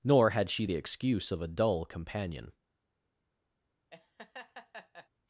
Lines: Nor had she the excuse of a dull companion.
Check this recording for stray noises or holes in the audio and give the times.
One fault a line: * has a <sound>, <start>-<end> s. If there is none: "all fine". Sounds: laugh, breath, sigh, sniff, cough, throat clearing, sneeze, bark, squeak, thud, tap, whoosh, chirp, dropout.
* has a laugh, 3.9-5.1 s